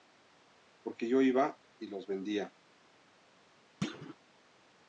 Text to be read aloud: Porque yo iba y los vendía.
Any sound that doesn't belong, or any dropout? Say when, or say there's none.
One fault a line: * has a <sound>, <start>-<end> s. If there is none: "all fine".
* has a thud, 3.8-4.2 s